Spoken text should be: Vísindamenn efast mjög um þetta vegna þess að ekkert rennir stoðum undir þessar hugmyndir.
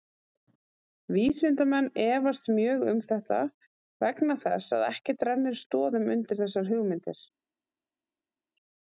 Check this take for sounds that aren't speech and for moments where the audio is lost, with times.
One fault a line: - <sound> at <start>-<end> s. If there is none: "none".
none